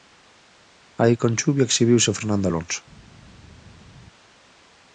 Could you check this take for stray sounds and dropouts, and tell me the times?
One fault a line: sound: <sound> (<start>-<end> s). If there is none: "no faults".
no faults